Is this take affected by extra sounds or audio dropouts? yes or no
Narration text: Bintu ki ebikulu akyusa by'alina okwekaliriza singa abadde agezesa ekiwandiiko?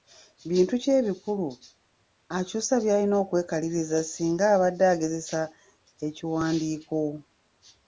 no